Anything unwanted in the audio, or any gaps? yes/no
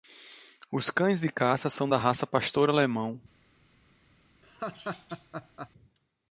yes